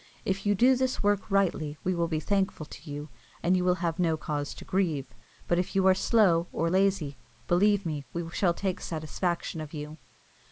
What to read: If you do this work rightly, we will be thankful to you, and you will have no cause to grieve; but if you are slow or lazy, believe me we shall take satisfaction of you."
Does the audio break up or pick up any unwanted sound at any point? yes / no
no